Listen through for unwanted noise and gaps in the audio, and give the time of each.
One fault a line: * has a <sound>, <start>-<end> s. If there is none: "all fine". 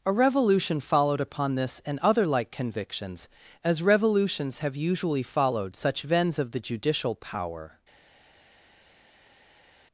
all fine